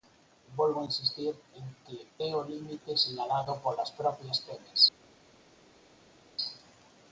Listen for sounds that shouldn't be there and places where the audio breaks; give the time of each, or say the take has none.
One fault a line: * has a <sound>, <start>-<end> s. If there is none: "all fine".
all fine